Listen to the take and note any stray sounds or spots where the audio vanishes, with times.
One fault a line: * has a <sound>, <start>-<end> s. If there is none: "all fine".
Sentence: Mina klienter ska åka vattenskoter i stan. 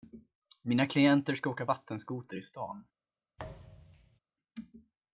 * has a thud, 3.4-4.2 s